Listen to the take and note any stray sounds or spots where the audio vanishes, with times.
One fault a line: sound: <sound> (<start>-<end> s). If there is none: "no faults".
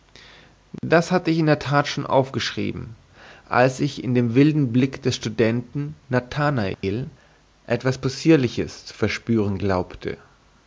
sound: dropout (0.8-0.8 s)
sound: dropout (6.7-6.8 s)